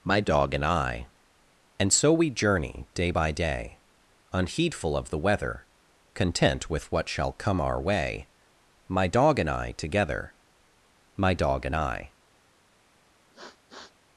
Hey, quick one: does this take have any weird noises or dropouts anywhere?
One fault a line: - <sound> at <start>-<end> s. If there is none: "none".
- sniff at 13.3-14.0 s